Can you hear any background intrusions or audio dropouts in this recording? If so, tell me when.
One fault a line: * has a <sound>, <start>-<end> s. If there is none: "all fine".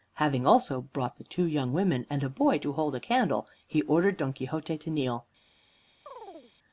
* has a chirp, 6.1-6.5 s